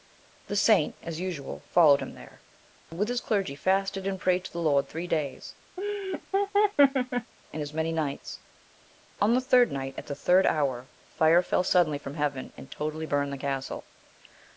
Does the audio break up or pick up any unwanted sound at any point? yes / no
yes